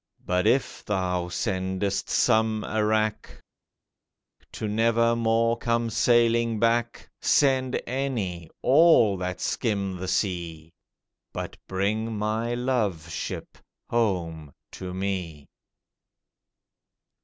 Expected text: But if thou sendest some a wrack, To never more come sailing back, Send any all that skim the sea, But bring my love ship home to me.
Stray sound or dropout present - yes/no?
no